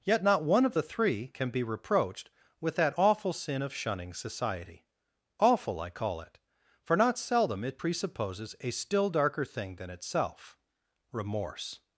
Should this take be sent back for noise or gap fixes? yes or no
no